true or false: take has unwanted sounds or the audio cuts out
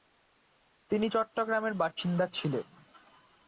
false